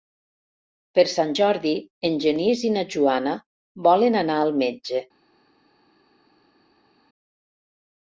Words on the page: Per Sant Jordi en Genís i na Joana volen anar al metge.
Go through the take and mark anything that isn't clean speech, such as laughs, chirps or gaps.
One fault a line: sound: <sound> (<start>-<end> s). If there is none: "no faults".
no faults